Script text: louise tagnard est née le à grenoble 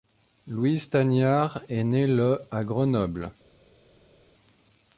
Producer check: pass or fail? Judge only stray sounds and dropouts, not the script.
pass